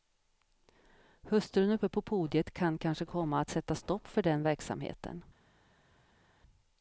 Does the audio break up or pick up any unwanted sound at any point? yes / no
no